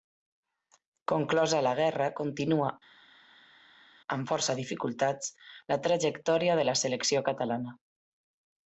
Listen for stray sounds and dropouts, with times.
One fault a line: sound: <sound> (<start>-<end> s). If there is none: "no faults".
no faults